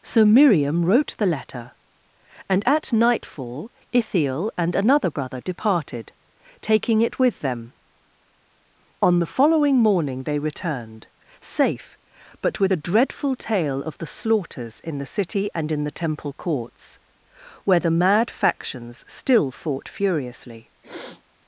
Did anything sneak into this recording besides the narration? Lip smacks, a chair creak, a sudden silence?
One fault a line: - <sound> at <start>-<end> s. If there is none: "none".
- sniff at 20.8-21.2 s